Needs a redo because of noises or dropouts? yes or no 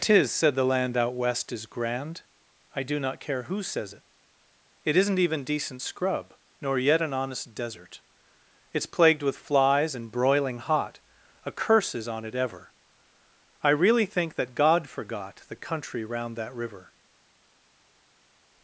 no